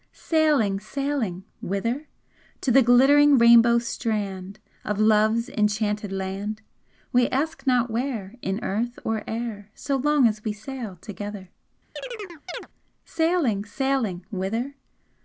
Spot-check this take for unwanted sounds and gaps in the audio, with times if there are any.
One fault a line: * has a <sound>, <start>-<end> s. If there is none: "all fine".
* has a chirp, 12.0-12.7 s